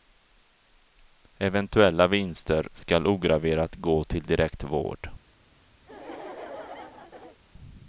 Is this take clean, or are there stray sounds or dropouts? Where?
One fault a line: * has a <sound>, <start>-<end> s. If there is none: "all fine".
* has a laugh, 5.8-7.4 s